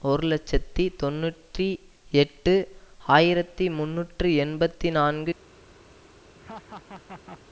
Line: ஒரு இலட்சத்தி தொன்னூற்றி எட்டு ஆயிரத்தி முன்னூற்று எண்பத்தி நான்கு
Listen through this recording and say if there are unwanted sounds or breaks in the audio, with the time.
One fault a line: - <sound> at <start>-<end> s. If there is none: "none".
- laugh at 6.4-7.4 s